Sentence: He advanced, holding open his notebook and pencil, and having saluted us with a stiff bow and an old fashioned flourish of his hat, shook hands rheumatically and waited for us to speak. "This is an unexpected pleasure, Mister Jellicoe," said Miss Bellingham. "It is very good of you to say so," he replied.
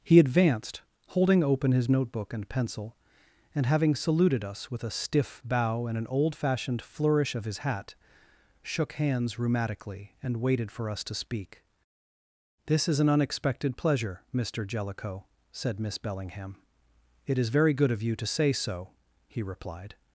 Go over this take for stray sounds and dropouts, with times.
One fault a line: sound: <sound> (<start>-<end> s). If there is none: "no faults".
no faults